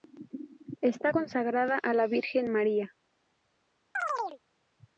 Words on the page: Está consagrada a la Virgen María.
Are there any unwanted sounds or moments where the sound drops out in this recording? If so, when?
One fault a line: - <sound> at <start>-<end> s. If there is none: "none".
- chirp at 3.9-4.4 s